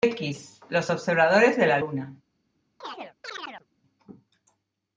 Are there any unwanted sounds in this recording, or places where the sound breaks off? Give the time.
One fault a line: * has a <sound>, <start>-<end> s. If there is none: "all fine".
* has a chirp, 2.8-3.7 s